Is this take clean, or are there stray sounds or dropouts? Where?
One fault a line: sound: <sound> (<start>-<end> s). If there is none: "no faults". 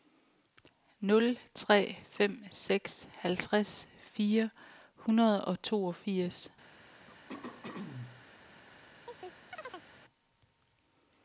sound: throat clearing (7.1-8.3 s)
sound: chirp (9.1-9.9 s)